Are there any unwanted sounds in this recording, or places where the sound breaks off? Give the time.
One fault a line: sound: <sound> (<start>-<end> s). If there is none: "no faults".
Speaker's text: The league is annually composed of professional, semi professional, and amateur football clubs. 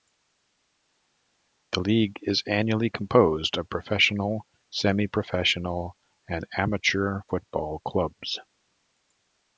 no faults